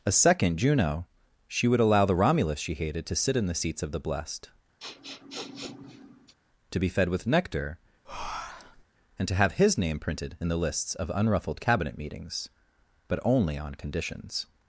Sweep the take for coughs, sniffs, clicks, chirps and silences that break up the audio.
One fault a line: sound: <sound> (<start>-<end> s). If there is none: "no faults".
sound: sniff (4.8-6.3 s)
sound: breath (8.0-8.8 s)